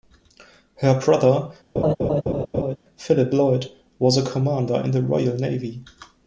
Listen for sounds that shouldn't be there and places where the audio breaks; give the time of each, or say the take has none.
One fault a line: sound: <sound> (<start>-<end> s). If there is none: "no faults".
sound: laugh (1.8-2.8 s)